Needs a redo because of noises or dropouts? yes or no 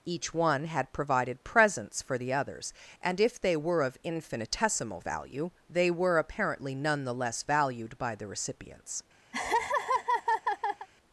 yes